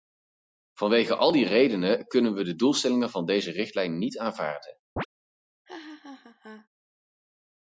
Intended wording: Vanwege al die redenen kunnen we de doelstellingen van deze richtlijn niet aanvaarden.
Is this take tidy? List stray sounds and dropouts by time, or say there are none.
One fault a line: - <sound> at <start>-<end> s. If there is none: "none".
- chirp at 5.0-5.1 s
- laugh at 5.7-6.7 s